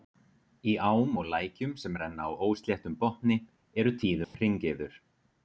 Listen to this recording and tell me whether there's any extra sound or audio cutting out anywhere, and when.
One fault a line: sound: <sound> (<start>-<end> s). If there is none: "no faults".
sound: dropout (4.2-4.3 s)